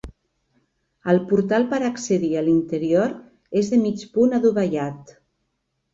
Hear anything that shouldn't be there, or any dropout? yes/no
no